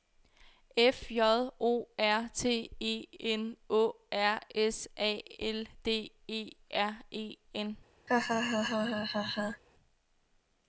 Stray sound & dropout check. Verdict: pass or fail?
fail